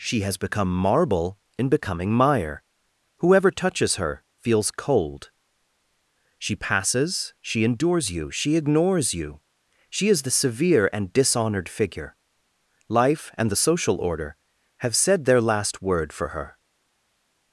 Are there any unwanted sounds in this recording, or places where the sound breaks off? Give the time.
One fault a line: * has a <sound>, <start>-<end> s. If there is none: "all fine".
all fine